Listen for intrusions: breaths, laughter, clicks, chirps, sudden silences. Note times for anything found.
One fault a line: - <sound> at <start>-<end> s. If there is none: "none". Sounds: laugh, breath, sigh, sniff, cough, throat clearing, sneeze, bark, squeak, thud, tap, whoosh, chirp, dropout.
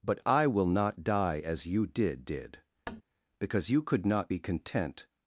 - tap at 2.9-3.0 s